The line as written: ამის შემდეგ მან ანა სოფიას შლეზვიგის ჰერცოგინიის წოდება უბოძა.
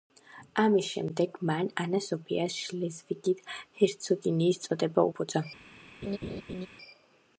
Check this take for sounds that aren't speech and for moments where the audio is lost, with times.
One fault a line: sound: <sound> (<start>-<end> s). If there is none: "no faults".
sound: laugh (6.0-6.7 s)